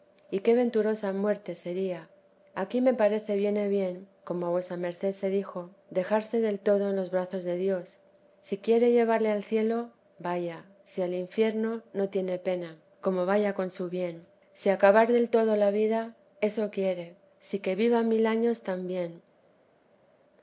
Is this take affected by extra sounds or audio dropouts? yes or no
no